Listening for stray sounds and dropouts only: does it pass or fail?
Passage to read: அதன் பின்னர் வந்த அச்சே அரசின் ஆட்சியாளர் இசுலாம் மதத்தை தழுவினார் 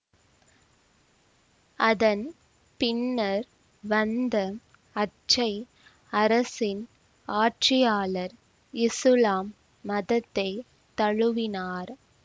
pass